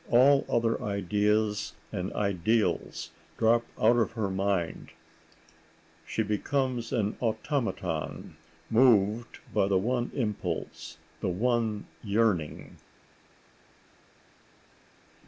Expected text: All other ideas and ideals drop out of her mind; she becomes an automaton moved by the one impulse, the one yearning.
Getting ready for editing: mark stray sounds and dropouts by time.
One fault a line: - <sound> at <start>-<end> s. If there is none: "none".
none